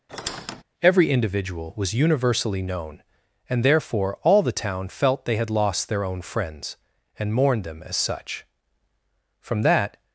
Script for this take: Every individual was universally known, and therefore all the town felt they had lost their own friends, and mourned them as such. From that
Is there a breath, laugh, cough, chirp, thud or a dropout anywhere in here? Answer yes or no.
yes